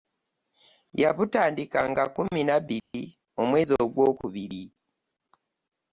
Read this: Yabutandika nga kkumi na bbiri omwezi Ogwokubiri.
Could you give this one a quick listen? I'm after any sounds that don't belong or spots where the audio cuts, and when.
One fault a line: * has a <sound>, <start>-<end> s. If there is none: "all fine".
* has a dropout, 2.8-2.9 s